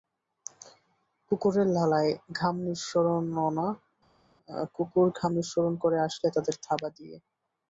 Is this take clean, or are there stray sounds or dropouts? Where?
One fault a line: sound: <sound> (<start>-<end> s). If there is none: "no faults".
no faults